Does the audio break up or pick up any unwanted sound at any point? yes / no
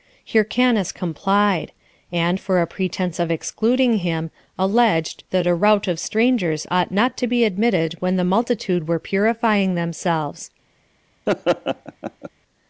yes